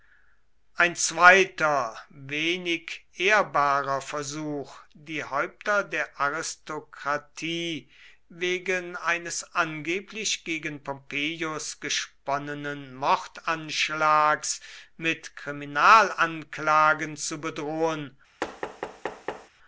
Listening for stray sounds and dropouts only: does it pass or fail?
fail